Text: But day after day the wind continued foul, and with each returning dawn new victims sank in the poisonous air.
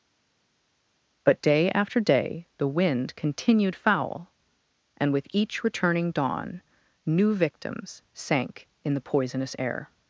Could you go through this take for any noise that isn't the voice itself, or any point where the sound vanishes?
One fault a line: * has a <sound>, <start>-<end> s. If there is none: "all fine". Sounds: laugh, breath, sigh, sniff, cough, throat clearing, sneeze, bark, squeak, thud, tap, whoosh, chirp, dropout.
all fine